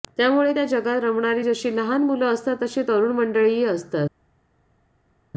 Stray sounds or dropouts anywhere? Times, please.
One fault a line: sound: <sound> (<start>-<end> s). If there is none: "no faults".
no faults